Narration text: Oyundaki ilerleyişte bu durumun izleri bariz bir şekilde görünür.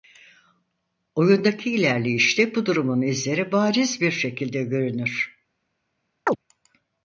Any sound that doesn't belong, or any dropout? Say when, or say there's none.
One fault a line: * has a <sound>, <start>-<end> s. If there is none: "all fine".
* has a chirp, 6.3-6.4 s